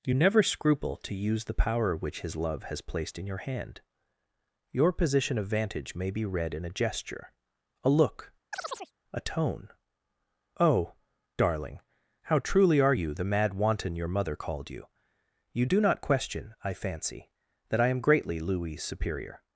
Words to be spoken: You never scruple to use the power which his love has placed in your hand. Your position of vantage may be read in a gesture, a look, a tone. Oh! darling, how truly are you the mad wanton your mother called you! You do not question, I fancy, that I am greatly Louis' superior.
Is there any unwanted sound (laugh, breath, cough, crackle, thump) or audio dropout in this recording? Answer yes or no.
yes